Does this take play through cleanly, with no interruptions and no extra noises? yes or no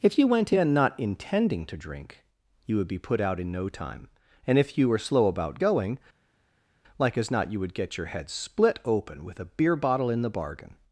yes